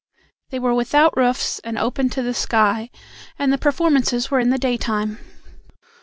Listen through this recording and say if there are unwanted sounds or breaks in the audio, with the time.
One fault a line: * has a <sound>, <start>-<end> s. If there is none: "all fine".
all fine